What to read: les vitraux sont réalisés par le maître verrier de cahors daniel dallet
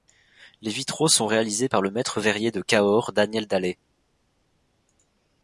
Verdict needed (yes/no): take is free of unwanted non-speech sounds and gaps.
yes